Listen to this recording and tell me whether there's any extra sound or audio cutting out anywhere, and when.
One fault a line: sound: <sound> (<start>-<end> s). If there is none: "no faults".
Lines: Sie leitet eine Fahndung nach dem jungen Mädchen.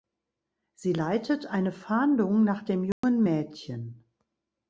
sound: dropout (2.9-3.0 s)